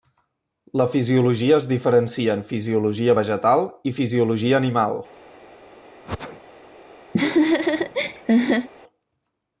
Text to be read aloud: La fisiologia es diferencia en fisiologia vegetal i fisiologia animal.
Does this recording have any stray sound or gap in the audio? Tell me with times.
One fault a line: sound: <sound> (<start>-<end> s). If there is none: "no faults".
sound: sneeze (6.0-6.4 s)
sound: laugh (7.1-8.7 s)